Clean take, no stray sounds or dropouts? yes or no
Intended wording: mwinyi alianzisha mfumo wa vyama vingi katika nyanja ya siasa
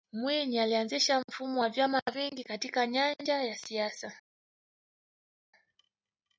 yes